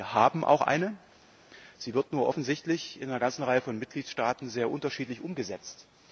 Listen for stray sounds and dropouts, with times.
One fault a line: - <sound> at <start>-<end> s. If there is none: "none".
none